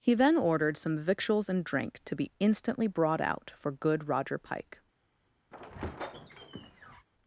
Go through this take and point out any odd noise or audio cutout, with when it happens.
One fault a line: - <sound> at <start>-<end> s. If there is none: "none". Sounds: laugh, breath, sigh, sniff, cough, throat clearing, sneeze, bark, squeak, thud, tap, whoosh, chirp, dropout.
- squeak at 5.5-7.1 s